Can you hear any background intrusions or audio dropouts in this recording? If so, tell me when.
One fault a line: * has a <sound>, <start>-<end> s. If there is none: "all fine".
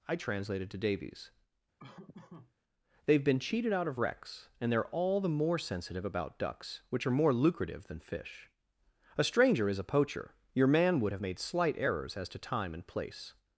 * has a laugh, 1.8-2.5 s